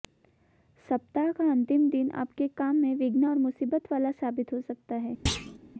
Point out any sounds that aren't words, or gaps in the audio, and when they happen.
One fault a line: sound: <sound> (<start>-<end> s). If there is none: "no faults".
sound: thud (5.3-5.6 s)